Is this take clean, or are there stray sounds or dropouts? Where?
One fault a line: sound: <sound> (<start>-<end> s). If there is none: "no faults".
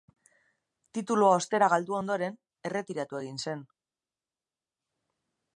no faults